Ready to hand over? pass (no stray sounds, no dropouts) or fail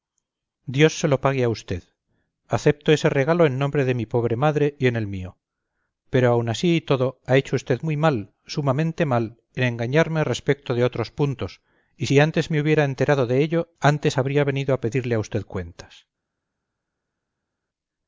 pass